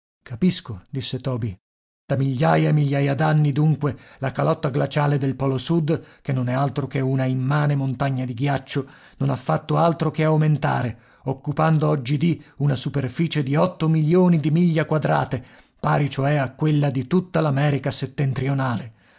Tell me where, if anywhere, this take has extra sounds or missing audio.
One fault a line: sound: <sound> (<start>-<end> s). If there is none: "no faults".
no faults